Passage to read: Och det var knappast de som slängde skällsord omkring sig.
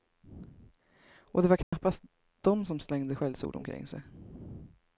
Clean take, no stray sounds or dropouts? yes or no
no